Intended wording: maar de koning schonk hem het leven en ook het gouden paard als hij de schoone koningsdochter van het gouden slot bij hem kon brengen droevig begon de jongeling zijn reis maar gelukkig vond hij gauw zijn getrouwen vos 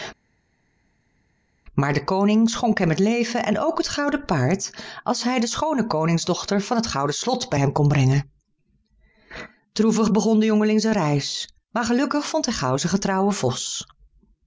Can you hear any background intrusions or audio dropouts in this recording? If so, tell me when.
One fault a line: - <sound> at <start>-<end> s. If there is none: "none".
none